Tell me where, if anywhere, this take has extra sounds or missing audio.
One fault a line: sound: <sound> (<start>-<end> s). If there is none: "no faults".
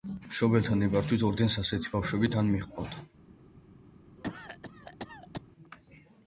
sound: cough (4.2-5.4 s)